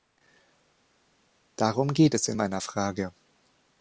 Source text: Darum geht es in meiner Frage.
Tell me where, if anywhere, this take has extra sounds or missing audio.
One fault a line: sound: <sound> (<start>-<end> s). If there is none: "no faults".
no faults